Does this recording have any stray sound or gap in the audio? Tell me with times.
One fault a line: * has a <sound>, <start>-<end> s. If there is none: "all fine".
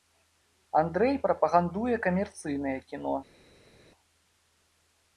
all fine